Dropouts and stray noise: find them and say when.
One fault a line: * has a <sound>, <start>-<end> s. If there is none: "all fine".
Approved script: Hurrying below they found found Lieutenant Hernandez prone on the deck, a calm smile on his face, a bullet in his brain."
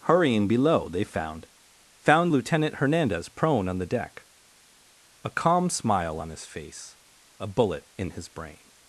all fine